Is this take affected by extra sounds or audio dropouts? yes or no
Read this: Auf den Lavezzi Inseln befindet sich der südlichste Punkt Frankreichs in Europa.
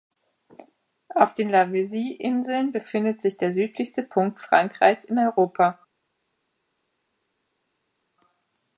no